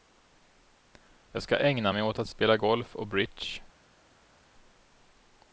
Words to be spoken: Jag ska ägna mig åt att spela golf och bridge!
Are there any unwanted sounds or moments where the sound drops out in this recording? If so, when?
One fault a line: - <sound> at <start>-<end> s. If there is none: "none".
none